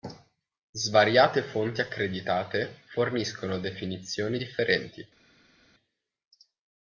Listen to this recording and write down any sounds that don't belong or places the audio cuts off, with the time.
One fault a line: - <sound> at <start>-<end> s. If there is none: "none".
none